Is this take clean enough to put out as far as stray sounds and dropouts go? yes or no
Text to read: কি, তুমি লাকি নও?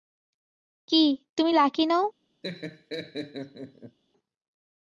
no